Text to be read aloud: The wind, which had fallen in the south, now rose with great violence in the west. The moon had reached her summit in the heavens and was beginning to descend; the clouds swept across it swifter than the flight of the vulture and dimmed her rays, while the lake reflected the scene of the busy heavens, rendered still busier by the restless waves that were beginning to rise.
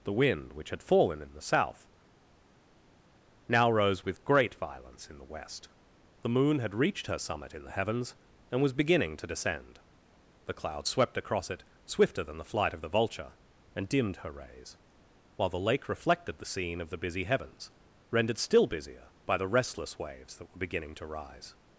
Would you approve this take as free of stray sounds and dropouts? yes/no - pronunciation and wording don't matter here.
yes